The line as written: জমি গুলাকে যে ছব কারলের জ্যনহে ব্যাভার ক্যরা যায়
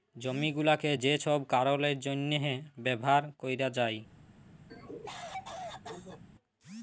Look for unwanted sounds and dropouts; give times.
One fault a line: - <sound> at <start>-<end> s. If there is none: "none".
- cough at 4.7-6.2 s